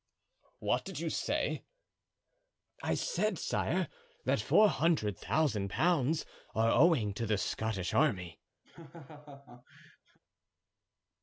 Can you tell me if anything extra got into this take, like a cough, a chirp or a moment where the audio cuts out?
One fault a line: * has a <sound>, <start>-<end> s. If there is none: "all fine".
* has a laugh, 8.6-10.2 s